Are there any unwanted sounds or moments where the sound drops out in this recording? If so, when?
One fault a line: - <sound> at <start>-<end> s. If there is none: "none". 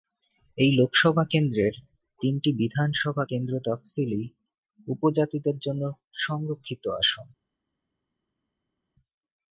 none